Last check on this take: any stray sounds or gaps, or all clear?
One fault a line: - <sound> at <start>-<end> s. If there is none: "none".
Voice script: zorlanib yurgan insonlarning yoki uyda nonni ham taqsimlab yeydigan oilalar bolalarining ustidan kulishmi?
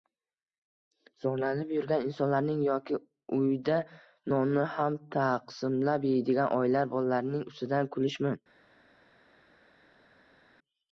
none